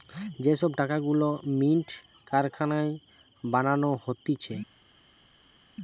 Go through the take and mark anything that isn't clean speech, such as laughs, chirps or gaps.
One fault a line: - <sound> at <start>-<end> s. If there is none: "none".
none